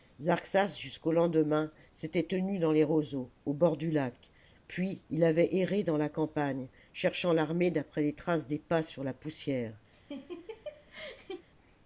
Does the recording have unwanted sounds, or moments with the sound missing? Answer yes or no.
yes